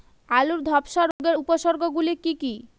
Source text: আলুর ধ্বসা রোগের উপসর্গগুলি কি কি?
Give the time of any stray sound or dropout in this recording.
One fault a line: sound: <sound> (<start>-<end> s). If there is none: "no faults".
sound: dropout (1.1-1.2 s)